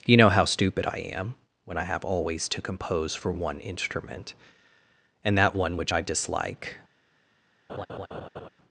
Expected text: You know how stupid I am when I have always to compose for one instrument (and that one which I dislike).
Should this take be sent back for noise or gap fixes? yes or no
yes